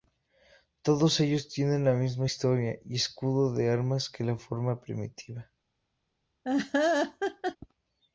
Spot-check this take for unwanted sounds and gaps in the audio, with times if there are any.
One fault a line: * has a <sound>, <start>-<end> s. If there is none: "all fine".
* has a laugh, 6.4-7.6 s